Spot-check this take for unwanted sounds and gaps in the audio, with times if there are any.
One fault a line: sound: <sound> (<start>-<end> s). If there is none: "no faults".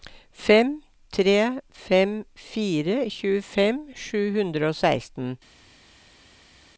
no faults